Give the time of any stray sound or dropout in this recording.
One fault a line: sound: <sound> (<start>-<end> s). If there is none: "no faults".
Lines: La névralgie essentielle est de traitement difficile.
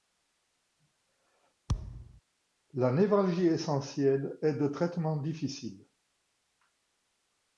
sound: thud (1.7-2.2 s)